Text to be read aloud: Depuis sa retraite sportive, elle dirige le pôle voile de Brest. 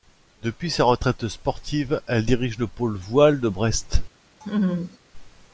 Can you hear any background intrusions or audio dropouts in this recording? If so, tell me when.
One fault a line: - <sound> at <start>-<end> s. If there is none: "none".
- laugh at 4.4-5.0 s